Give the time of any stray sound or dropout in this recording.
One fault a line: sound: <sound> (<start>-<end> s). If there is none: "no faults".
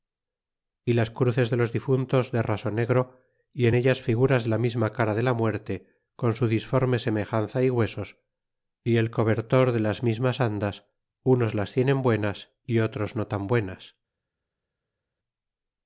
no faults